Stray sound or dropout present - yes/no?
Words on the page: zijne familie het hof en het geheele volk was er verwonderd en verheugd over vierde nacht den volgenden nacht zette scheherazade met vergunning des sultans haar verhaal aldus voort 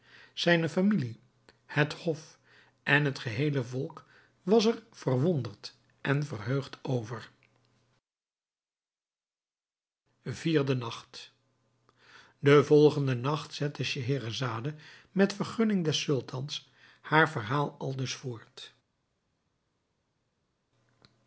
no